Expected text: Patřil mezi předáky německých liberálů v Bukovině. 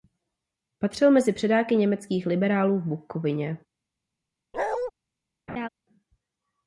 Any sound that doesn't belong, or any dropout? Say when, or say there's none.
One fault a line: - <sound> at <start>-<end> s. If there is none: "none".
- bark at 4.5-4.9 s
- laugh at 5.5-5.7 s